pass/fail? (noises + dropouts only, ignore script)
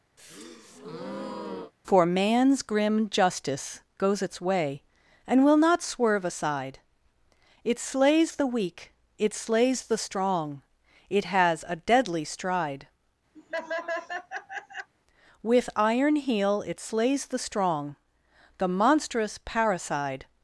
fail